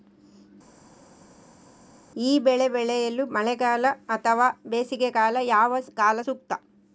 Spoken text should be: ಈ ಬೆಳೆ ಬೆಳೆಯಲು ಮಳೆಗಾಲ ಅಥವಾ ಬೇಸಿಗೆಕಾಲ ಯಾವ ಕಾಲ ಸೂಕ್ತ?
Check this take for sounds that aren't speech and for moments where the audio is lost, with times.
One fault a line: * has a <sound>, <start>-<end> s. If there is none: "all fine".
all fine